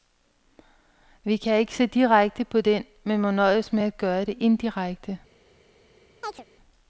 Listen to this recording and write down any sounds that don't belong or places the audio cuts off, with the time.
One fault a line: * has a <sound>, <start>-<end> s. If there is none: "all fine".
* has a chirp, 6.2-6.5 s